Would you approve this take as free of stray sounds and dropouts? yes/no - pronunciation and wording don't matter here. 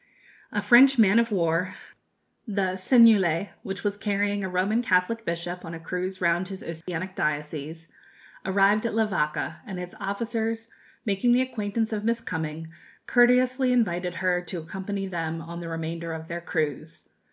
no